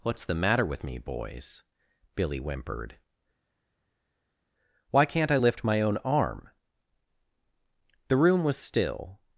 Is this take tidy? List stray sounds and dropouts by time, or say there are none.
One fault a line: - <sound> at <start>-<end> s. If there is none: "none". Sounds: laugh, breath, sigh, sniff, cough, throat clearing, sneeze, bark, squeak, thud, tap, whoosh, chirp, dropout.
none